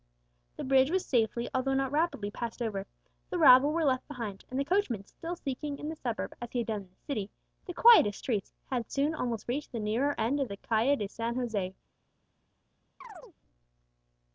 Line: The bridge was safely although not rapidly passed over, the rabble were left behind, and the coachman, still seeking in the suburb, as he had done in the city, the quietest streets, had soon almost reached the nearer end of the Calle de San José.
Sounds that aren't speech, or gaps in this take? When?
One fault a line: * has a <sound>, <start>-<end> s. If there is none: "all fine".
* has a chirp, 13.0-13.4 s